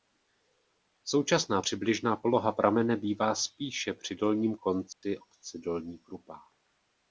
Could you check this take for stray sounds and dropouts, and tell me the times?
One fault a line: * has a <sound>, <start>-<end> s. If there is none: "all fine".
* has a dropout, 4.9-5.0 s